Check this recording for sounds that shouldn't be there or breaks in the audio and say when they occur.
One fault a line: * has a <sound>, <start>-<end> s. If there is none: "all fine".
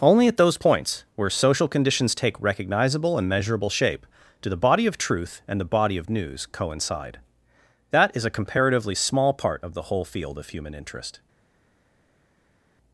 all fine